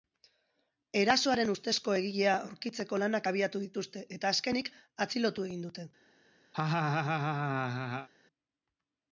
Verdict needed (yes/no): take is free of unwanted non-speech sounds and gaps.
no